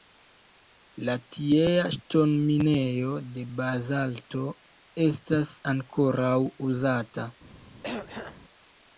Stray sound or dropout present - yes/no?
yes